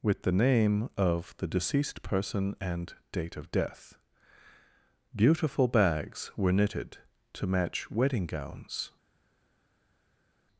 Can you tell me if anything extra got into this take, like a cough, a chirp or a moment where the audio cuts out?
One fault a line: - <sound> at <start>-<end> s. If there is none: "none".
none